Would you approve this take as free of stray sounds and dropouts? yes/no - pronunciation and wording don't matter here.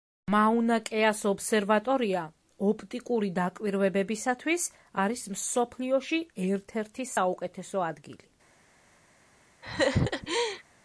no